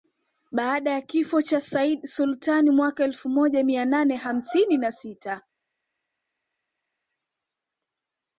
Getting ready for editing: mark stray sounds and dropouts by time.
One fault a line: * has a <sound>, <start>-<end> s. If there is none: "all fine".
all fine